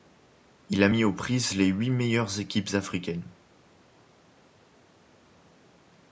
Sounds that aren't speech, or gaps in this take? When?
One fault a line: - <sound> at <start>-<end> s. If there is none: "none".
none